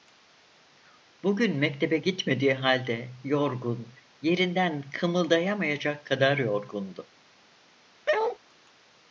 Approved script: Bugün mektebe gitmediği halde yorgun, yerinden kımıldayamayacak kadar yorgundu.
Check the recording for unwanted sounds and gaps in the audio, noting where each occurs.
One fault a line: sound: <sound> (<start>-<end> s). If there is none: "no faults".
sound: bark (8.1-8.4 s)